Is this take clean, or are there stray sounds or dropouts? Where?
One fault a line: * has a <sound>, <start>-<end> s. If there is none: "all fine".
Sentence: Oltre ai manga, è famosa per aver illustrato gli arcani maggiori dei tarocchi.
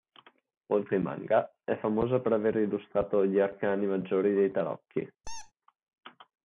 * has a squeak, 5.2-5.5 s